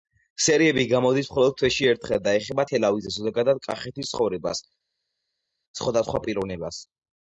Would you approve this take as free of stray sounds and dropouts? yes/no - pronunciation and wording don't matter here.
yes